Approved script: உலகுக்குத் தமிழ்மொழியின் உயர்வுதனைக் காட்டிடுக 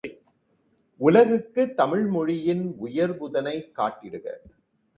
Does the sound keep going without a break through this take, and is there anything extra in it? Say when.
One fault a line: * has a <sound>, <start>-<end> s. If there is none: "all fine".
all fine